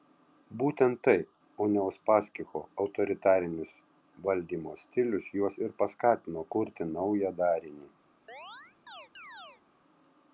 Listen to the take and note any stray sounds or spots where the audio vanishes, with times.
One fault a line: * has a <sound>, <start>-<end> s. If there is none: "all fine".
* has a chirp, 8.3-9.6 s